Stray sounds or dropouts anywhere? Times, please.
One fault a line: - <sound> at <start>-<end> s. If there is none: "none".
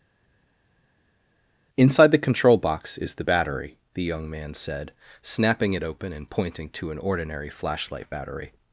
none